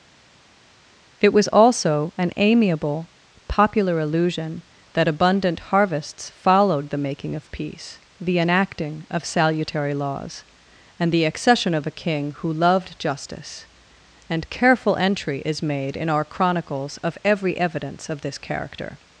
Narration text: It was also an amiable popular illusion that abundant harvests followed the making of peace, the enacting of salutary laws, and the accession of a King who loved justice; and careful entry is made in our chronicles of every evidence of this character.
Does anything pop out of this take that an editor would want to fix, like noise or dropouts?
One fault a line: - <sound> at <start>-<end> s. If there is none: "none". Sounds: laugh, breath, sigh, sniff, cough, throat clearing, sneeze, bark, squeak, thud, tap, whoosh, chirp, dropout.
none